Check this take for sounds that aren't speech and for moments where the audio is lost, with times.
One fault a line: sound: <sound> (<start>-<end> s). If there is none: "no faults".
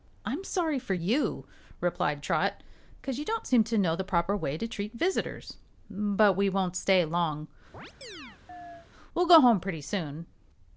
sound: chirp (7.7-8.9 s)